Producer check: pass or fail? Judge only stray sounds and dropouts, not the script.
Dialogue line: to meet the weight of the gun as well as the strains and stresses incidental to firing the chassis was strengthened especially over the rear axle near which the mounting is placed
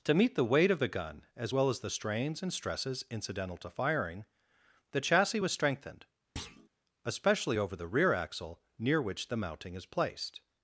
fail